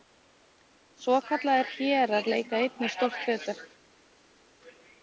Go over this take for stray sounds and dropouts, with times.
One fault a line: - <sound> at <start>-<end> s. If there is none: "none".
none